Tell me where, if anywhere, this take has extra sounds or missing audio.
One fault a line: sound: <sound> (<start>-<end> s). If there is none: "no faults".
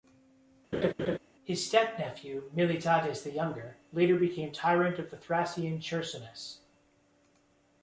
sound: laugh (0.7-1.2 s)